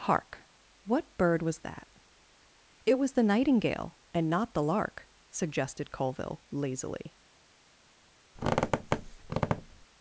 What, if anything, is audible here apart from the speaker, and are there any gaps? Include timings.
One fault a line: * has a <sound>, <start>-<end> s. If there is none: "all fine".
* has a squeak, 8.4-9.9 s